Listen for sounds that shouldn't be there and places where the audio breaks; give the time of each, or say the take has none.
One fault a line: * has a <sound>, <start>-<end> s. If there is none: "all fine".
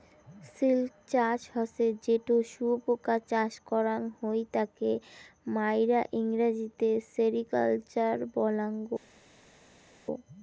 all fine